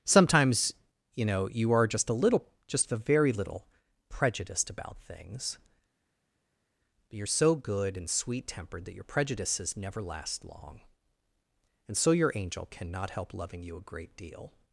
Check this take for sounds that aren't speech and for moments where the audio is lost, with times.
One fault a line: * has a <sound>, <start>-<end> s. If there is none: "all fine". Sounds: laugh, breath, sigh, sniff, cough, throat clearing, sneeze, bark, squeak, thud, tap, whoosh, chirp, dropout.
all fine